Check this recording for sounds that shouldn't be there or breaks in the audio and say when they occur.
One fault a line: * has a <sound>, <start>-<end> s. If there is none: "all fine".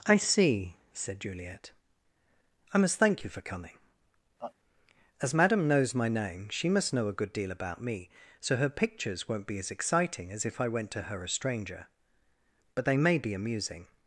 * has a laugh, 4.4-4.5 s